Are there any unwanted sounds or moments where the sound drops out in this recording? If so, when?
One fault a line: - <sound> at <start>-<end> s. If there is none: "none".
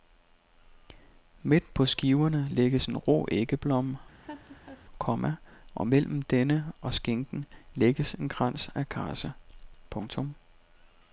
- laugh at 4.2-4.9 s